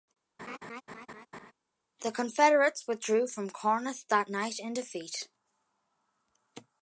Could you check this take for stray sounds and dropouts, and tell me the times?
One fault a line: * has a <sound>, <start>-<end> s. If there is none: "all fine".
* has a laugh, 0.4-1.5 s